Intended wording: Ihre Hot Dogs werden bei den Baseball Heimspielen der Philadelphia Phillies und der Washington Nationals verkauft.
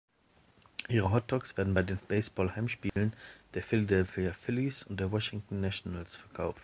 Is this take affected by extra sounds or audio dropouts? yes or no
yes